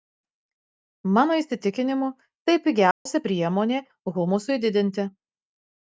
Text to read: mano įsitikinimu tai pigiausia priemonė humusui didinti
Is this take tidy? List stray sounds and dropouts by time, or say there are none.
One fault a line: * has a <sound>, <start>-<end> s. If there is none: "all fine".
* has a dropout, 2.9-3.1 s